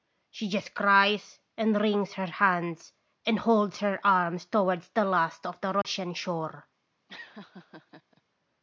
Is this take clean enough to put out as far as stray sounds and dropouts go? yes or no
no